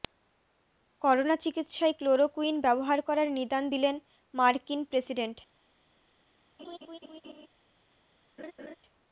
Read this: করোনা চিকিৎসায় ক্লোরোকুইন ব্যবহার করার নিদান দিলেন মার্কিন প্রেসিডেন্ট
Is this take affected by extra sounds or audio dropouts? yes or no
yes